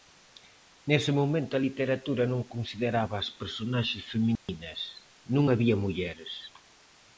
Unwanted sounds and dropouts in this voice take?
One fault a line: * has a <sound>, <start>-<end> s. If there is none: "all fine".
* has a dropout, 4.4-4.5 s